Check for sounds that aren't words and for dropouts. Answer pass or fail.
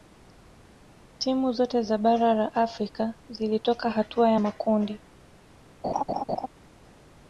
fail